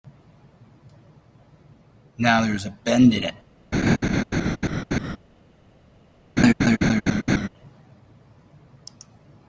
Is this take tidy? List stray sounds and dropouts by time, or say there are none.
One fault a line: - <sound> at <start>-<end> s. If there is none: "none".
- laugh at 3.7-5.2 s
- laugh at 6.4-7.5 s